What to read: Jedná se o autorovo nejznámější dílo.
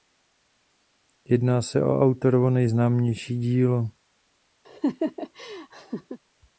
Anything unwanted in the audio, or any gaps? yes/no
yes